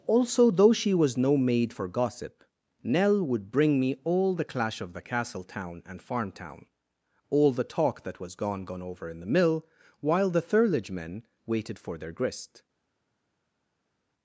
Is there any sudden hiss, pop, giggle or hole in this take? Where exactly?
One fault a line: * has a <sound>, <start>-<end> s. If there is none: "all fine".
all fine